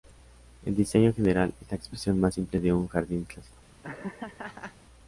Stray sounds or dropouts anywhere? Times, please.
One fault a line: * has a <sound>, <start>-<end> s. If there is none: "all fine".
* has a laugh, 3.8-4.8 s